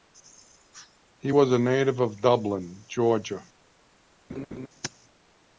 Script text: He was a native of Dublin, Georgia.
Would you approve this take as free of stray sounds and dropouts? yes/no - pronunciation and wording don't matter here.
no